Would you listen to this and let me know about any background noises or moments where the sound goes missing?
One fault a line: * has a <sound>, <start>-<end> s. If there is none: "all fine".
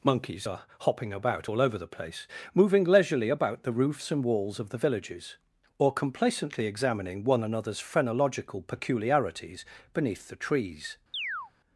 * has a chirp, 11.1-11.5 s